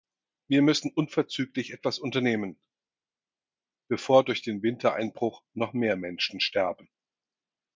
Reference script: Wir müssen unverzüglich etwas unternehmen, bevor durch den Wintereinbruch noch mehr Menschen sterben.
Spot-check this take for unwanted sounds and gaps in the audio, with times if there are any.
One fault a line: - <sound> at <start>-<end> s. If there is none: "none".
none